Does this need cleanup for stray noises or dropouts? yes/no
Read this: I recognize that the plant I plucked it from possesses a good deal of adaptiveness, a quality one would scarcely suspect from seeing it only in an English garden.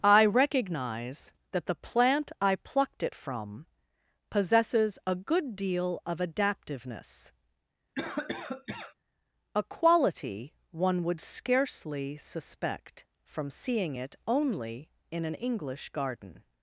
yes